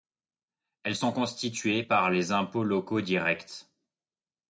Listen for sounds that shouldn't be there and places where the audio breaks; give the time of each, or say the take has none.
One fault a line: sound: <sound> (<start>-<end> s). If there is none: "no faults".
no faults